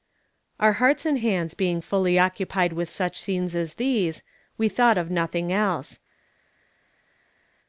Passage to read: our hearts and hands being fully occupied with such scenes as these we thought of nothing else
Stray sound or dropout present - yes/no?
no